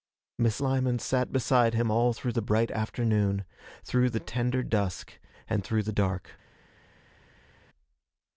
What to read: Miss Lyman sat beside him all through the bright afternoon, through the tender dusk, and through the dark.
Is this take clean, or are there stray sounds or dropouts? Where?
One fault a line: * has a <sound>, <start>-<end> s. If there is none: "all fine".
all fine